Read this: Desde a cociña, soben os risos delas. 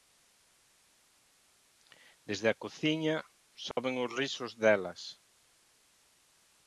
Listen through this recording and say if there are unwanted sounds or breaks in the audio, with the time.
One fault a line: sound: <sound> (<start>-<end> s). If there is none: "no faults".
sound: dropout (3.7-3.8 s)